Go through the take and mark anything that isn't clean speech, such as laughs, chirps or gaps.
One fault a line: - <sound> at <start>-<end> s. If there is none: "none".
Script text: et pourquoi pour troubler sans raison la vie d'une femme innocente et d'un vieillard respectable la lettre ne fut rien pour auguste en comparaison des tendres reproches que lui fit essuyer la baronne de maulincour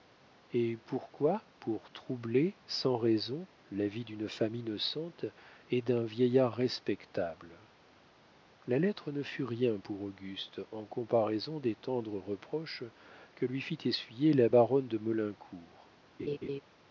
- laugh at 16.2-16.6 s